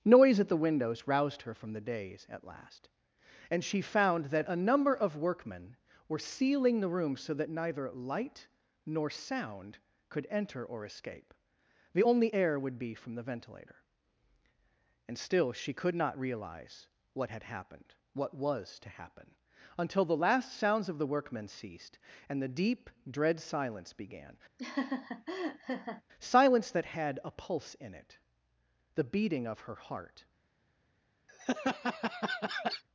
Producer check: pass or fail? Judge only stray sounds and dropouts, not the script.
fail